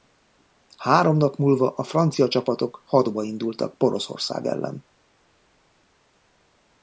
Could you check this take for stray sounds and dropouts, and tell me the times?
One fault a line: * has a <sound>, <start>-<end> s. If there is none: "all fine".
all fine